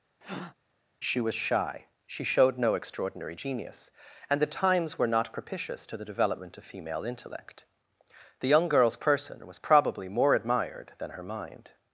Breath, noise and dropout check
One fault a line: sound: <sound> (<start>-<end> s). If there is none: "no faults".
sound: breath (0.2-0.5 s)